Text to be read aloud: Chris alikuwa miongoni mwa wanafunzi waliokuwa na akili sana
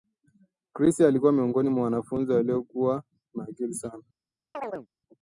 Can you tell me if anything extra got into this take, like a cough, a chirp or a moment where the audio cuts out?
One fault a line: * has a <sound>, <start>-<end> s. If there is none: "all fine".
* has a chirp, 4.5-4.9 s